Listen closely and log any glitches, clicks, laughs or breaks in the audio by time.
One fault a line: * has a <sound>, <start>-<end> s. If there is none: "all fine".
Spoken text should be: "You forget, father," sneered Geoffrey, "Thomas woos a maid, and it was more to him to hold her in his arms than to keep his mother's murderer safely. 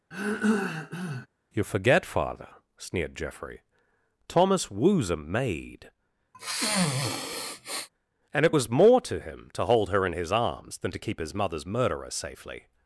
* has a throat clearing, 0.1-1.3 s
* has a sniff, 6.3-7.9 s